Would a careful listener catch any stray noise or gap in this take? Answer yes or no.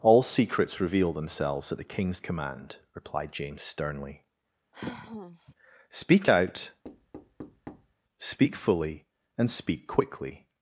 yes